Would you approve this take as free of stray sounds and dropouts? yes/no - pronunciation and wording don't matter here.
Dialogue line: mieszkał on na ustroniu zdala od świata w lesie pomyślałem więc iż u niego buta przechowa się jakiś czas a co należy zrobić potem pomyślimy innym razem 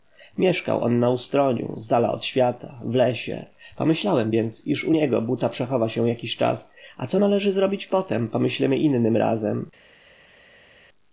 yes